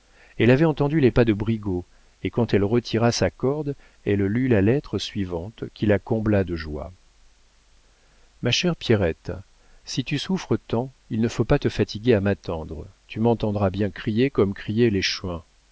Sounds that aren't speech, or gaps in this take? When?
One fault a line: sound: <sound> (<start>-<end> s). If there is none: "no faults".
no faults